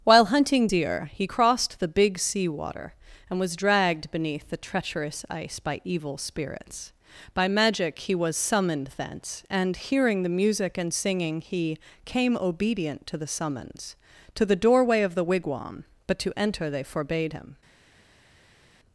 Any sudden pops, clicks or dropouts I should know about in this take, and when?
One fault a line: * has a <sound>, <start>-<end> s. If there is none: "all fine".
all fine